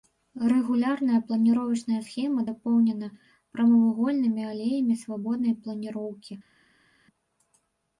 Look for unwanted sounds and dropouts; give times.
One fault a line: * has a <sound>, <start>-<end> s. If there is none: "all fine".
all fine